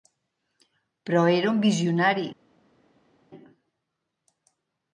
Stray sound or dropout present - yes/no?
no